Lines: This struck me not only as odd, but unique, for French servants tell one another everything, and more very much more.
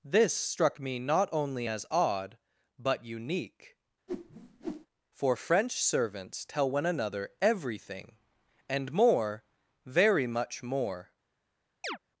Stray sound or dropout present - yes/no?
yes